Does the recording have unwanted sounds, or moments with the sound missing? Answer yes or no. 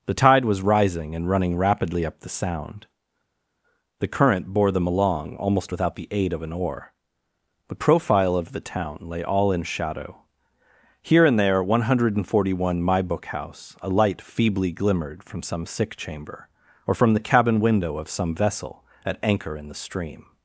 no